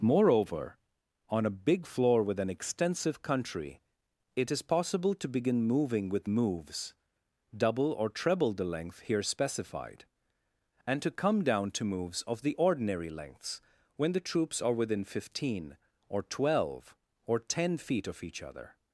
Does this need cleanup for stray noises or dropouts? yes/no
no